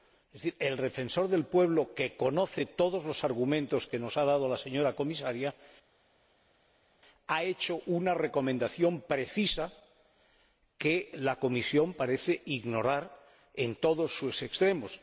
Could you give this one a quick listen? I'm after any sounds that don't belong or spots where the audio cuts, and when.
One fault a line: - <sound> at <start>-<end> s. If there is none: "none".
none